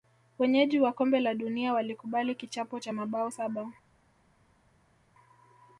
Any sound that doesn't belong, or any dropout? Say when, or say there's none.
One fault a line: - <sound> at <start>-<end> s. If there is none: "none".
none